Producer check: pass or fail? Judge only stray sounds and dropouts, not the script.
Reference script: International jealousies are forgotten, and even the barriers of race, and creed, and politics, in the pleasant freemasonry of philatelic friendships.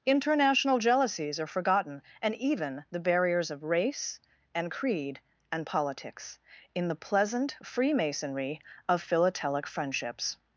pass